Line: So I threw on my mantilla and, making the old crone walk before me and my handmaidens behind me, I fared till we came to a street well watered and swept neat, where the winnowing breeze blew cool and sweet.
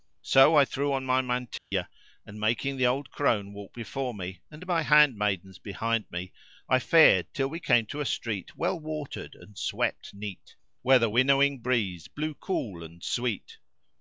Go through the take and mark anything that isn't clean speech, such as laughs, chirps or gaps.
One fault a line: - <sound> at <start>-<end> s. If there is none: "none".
- dropout at 1.6-1.7 s